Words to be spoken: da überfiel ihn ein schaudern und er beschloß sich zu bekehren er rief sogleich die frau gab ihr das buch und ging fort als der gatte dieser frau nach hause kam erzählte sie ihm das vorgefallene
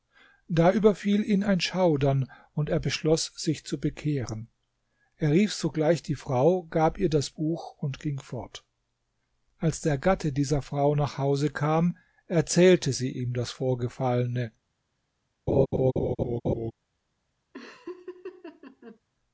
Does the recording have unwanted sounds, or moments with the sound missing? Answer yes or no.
yes